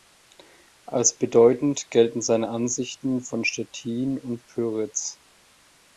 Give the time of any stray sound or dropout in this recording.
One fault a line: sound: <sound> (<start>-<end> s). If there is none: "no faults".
no faults